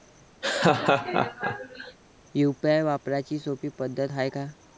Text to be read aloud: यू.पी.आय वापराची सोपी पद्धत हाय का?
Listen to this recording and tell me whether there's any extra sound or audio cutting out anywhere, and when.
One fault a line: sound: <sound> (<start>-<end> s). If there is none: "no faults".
sound: laugh (0.4-2.0 s)